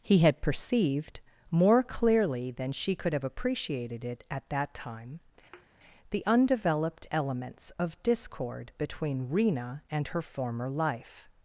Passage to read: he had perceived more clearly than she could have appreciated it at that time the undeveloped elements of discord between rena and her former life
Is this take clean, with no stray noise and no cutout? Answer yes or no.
no